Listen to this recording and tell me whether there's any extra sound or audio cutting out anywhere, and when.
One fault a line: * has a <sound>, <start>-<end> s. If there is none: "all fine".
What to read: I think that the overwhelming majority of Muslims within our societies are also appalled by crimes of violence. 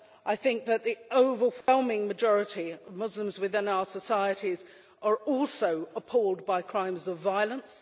* has a dropout, 1.6-1.7 s